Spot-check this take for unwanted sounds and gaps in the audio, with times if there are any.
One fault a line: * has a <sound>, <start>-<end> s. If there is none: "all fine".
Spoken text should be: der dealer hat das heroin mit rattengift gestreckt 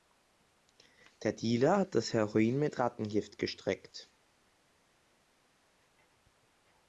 all fine